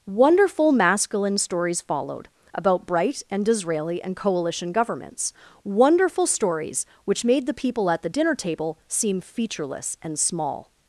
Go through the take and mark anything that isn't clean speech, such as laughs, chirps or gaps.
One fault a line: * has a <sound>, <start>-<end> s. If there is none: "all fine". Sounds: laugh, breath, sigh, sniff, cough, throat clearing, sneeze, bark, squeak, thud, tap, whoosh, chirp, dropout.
all fine